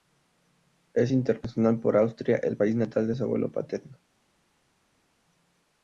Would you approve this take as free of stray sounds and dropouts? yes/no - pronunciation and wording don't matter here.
yes